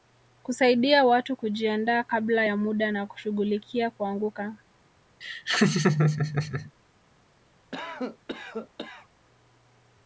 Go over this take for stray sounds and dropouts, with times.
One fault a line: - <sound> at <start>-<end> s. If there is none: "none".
- laugh at 5.2-6.7 s
- cough at 7.7-9.1 s